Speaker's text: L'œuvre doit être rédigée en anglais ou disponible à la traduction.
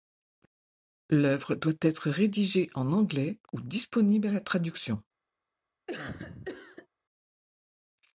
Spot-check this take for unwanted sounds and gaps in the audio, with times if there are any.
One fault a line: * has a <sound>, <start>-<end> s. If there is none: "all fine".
* has a cough, 5.9-6.9 s